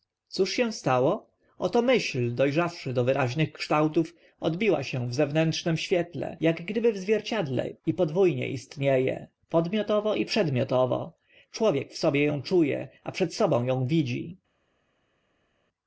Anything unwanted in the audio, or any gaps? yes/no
no